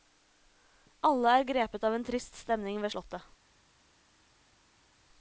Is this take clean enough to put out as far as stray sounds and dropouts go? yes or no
yes